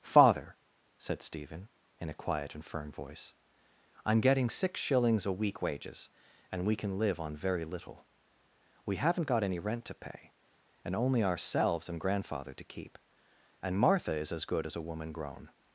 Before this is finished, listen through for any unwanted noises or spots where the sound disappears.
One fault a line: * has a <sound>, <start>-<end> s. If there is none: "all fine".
all fine